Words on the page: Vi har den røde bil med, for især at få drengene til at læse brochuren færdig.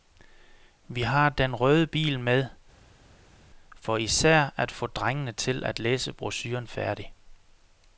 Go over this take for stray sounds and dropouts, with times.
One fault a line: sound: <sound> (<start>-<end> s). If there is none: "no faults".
no faults